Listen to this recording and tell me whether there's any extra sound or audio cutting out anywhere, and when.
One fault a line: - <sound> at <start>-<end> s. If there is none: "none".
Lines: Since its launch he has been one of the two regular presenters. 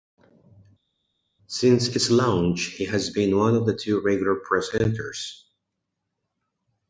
none